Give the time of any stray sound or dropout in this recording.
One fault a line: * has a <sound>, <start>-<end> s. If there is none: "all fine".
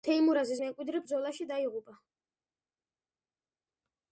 all fine